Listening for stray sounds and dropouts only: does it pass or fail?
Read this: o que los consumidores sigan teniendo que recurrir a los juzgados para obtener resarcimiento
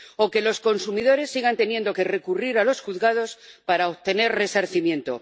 pass